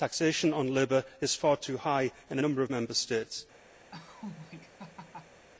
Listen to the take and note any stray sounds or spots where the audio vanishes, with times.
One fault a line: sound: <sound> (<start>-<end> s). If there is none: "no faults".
sound: laugh (3.9-5.5 s)